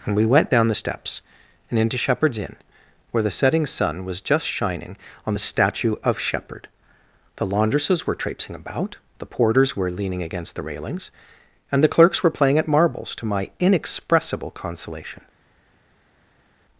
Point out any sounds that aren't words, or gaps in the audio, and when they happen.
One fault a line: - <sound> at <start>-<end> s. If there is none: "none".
none